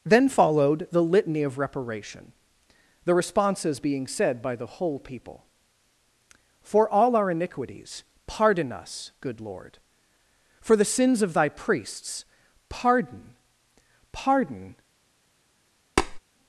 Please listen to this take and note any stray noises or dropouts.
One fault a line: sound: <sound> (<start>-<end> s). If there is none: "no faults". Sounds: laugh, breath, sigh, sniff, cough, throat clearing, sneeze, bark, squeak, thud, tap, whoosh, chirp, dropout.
sound: tap (16.0-16.2 s)